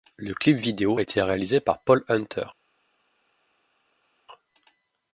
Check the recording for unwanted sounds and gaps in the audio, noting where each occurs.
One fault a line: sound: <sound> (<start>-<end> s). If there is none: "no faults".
no faults